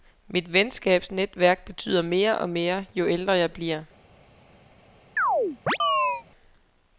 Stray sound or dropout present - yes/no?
yes